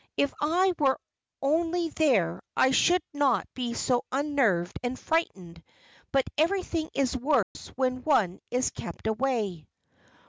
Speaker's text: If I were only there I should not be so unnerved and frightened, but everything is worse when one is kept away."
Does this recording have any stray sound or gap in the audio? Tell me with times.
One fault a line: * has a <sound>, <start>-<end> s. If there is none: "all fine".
* has a dropout, 7.4-7.6 s